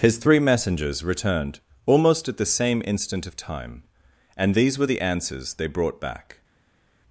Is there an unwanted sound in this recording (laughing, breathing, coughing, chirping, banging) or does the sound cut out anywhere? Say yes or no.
no